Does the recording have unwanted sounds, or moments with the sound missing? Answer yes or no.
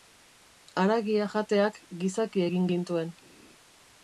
no